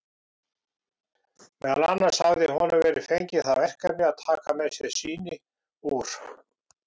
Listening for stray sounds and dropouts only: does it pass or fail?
pass